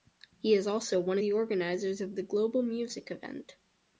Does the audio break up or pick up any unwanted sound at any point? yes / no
no